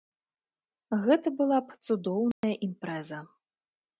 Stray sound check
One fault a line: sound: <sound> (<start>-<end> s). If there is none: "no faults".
sound: dropout (2.3-2.4 s)